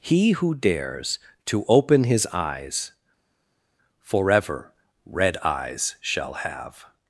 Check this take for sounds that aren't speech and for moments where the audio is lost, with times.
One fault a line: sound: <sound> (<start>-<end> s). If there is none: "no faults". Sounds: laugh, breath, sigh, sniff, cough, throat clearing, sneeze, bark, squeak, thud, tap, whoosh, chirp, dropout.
no faults